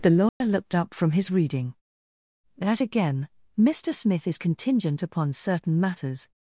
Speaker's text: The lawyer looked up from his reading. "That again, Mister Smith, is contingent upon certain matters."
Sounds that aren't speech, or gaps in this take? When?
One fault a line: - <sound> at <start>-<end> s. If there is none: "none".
- dropout at 0.3-0.4 s